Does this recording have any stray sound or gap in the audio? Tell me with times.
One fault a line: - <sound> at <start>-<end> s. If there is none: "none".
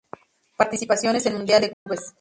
- dropout at 1.7-1.9 s